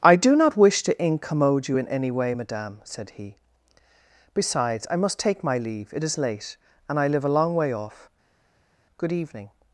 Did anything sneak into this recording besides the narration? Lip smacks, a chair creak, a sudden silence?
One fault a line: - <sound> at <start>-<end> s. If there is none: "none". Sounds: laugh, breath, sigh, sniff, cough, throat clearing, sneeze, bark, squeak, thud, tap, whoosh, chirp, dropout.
none